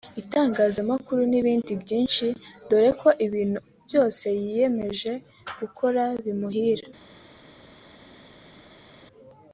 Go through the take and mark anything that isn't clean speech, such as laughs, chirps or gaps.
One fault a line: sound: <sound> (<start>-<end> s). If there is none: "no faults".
no faults